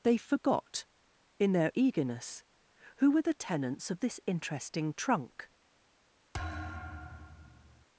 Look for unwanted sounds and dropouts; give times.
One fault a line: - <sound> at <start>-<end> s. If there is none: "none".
- thud at 6.3-7.9 s